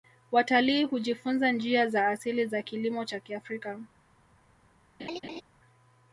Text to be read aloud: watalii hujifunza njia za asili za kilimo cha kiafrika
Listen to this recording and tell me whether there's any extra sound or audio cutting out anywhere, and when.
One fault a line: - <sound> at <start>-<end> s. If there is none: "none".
- laugh at 5.0-5.4 s